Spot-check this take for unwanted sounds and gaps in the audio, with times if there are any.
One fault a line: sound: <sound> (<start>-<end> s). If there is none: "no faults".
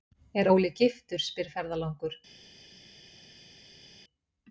no faults